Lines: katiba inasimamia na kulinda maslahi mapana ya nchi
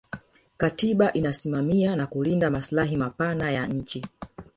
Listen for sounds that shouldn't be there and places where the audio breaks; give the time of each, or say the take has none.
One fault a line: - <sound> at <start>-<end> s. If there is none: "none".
none